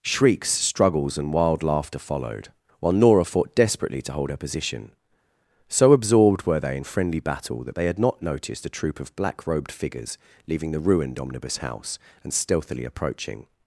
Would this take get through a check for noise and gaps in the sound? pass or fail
pass